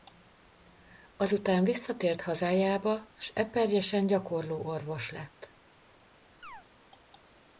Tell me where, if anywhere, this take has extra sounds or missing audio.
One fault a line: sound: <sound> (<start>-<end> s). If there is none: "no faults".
sound: chirp (6.4-6.6 s)